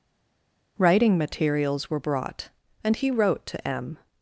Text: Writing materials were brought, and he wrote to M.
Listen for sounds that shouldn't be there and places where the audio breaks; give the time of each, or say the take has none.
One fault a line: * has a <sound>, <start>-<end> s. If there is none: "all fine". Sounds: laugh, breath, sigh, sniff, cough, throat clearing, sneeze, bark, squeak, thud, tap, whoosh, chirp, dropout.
all fine